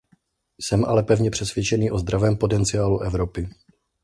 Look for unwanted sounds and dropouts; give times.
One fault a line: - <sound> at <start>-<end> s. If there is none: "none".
none